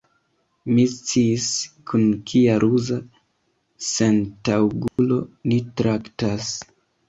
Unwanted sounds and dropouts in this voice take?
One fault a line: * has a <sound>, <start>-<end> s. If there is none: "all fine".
* has a dropout, 4.9-5.0 s